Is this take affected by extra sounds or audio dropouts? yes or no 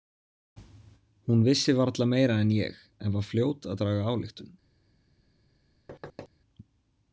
yes